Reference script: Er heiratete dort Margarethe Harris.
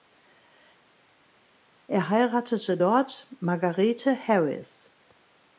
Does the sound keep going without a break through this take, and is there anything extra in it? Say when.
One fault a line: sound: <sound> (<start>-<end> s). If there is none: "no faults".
no faults